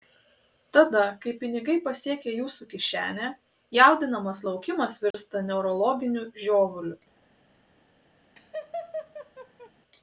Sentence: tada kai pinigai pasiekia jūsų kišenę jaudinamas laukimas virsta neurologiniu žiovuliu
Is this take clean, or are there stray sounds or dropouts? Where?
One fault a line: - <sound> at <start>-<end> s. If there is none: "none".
- dropout at 5.1-5.1 s
- laugh at 8.4-9.7 s